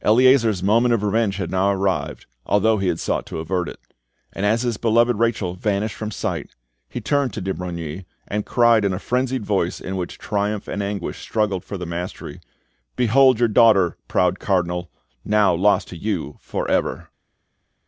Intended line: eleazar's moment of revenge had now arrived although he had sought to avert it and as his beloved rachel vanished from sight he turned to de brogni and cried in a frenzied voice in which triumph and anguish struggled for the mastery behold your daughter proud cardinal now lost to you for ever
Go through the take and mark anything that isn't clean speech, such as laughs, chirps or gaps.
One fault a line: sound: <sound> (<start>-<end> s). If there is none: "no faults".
no faults